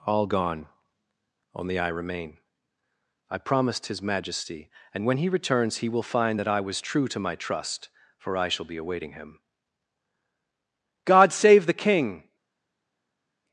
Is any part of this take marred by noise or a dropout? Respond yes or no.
no